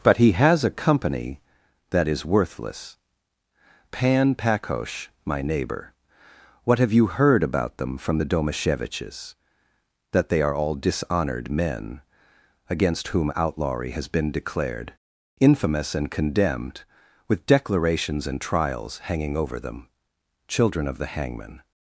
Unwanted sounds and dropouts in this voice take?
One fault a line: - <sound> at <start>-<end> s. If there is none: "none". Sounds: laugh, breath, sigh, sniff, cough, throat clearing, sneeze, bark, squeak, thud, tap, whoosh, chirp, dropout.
none